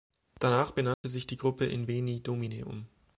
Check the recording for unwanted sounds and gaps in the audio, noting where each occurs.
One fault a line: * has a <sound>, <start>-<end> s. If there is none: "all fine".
* has a dropout, 0.9-1.0 s